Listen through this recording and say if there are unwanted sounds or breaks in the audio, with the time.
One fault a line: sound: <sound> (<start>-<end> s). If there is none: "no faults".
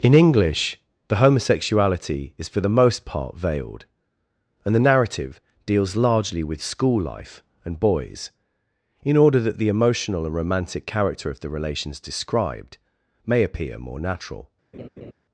sound: laugh (14.7-15.1 s)